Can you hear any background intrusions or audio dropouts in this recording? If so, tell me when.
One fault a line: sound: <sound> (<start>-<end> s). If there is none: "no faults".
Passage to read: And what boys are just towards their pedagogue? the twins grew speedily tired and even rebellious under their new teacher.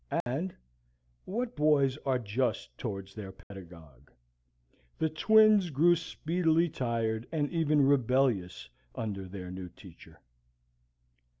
sound: dropout (0.2-0.3 s)
sound: dropout (3.4-3.5 s)